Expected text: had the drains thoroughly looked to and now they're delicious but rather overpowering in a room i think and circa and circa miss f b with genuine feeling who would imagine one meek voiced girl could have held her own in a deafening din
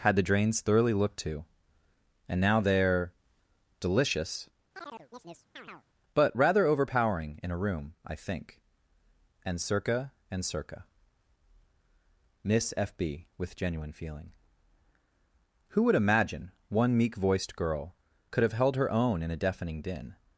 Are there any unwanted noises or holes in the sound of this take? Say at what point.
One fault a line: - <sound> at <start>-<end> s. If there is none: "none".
- chirp at 4.7-5.9 s